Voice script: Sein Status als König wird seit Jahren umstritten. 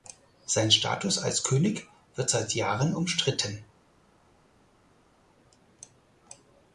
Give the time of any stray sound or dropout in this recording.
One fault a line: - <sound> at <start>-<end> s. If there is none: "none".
none